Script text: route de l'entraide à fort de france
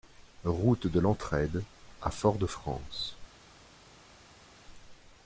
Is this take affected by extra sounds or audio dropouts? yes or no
no